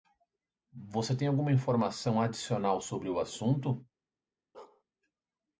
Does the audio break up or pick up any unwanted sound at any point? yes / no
yes